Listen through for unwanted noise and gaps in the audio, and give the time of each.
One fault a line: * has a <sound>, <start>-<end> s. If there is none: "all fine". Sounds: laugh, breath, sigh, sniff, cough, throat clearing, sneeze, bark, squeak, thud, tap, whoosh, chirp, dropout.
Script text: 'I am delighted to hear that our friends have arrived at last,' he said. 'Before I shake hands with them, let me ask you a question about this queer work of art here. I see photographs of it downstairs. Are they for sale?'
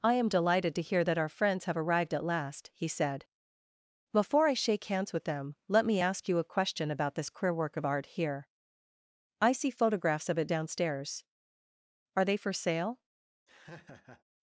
* has a laugh, 13.5-14.2 s